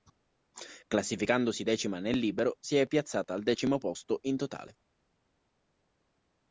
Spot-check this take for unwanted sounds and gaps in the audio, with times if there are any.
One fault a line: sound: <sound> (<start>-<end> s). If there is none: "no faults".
no faults